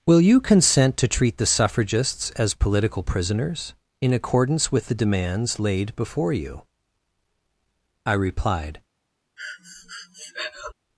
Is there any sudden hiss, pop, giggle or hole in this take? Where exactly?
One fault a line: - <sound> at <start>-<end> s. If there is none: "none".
- breath at 9.4-10.7 s